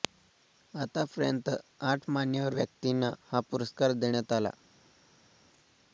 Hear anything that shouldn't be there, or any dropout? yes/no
no